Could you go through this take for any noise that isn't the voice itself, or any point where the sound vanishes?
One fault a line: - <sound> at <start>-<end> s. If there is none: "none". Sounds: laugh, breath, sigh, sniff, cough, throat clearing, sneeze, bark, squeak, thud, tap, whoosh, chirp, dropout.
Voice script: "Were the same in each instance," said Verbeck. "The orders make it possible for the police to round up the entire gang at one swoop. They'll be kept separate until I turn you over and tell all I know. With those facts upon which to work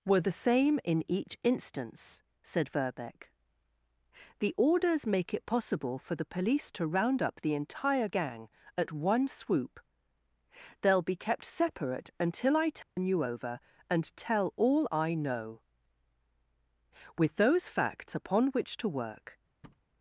- dropout at 12.8-13.0 s
- thud at 19.6-19.9 s